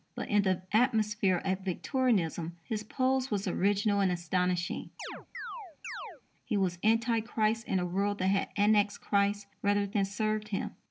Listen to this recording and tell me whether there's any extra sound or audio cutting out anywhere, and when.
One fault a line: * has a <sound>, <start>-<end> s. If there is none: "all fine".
* has a chirp, 5.0-6.2 s